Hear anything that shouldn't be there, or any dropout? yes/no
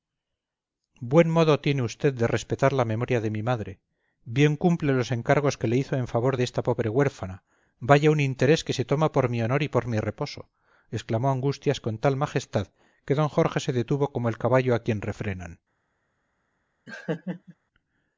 yes